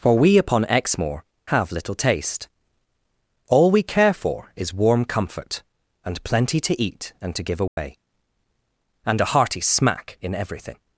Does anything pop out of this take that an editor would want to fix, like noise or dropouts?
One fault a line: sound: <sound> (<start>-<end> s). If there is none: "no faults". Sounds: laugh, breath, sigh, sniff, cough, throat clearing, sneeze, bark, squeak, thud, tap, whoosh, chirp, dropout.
sound: dropout (7.7-7.8 s)